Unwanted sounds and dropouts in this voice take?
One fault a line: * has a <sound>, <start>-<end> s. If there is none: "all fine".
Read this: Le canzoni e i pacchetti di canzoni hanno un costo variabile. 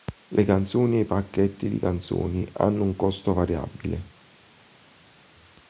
all fine